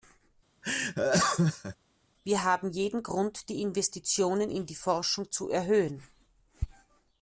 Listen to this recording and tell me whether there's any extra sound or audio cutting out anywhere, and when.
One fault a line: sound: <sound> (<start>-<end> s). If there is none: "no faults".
sound: laugh (0.6-1.8 s)